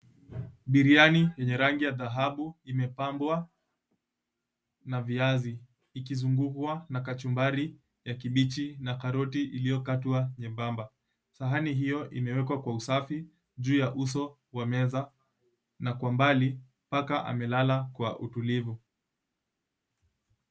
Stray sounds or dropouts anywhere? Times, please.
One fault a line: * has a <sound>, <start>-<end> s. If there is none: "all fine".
all fine